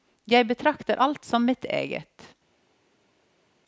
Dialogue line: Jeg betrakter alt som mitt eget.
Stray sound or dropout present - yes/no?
no